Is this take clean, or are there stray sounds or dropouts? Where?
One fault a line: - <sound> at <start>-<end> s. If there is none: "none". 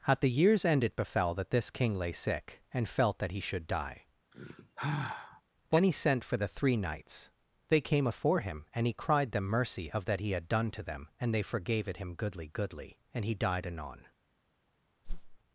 - sigh at 4.3-5.4 s
- whoosh at 15.0-15.4 s